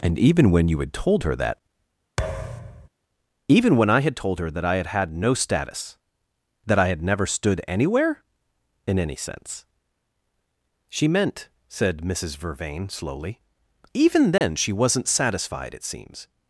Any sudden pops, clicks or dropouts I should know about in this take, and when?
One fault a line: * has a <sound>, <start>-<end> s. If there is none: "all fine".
* has a thud, 2.2-2.9 s
* has a dropout, 14.4-14.4 s